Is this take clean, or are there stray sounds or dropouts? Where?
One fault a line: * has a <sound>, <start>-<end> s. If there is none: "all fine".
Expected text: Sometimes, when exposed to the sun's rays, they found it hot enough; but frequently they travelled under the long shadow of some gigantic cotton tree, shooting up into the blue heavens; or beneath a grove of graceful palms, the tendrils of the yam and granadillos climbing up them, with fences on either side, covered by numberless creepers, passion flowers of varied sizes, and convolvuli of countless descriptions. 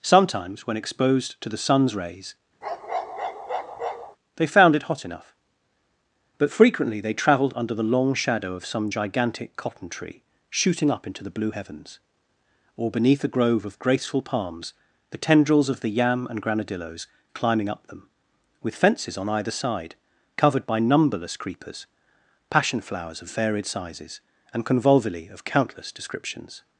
* has a bark, 2.6-4.2 s